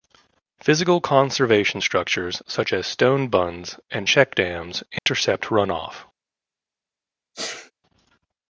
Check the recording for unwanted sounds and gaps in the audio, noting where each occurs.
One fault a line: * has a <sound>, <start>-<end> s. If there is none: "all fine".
* has a dropout, 5.0-5.1 s
* has a sneeze, 7.3-7.7 s